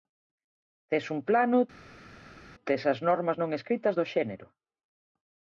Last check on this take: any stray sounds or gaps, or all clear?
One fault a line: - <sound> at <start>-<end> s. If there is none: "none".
none